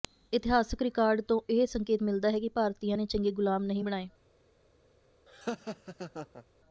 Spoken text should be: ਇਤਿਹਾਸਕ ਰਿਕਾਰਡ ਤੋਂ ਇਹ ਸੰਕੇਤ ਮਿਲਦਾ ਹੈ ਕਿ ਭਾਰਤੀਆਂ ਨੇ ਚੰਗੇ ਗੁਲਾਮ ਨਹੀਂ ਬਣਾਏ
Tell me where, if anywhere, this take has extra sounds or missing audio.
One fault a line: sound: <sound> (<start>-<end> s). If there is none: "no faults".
sound: laugh (5.3-6.5 s)